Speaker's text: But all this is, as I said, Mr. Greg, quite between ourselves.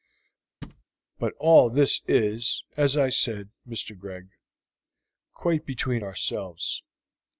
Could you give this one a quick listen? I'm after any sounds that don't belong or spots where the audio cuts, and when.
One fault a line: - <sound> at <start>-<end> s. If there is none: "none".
- thud at 0.6-0.8 s